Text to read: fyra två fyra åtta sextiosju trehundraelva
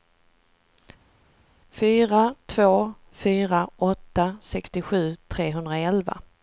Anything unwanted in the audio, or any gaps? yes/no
no